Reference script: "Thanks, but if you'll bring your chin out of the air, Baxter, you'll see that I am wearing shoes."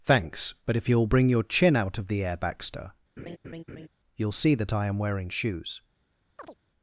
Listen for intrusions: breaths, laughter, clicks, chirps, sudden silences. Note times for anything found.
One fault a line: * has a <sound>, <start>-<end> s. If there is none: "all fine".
* has a laugh, 3.2-3.9 s
* has a chirp, 6.4-6.6 s